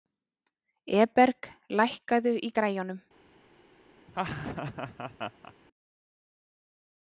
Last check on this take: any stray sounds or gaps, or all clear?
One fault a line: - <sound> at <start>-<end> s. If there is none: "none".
- laugh at 4.1-5.5 s